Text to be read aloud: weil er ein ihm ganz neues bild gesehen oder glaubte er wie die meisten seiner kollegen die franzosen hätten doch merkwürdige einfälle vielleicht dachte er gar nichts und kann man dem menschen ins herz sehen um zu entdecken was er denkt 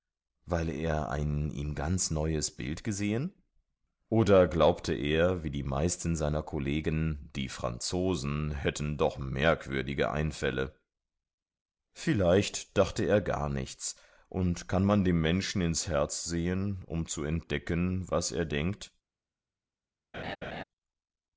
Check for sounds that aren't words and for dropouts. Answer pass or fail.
fail